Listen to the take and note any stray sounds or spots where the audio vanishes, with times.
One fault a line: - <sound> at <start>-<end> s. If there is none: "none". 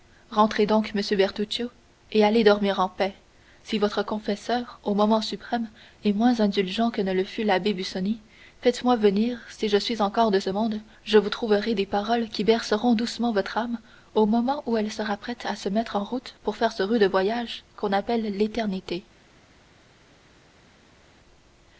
none